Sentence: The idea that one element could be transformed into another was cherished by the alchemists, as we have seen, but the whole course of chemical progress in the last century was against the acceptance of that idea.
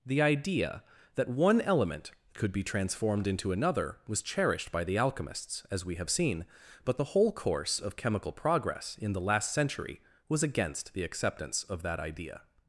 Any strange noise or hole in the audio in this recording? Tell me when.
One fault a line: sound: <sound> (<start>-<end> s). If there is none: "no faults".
no faults